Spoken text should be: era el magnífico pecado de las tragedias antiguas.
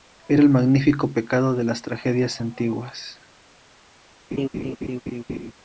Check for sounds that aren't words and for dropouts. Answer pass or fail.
fail